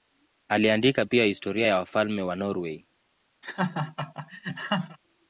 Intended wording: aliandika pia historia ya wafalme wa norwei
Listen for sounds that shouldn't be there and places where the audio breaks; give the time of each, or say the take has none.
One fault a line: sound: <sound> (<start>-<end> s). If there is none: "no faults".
sound: laugh (3.4-5.0 s)